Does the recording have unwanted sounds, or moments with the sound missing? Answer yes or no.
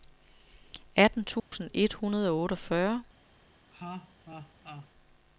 yes